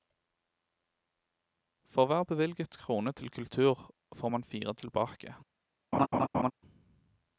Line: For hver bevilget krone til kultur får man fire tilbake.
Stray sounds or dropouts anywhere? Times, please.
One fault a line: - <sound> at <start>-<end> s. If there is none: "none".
- laugh at 5.9-6.5 s